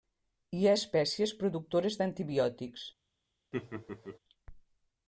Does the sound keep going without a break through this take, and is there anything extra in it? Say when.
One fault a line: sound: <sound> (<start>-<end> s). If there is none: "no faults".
sound: laugh (3.5-4.2 s)